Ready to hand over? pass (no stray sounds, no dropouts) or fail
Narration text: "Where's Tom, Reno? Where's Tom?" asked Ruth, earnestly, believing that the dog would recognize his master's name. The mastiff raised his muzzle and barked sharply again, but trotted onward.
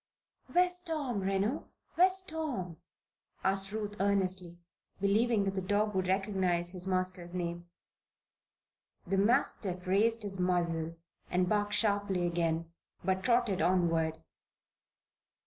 pass